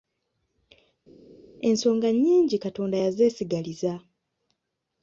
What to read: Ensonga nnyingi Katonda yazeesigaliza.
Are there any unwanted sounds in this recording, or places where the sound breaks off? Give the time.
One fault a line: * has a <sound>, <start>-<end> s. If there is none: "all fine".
all fine